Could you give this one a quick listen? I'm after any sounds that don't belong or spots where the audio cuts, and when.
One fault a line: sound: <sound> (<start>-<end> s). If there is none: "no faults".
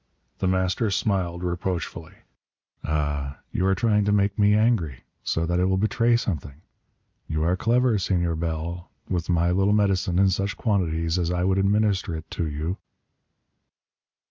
no faults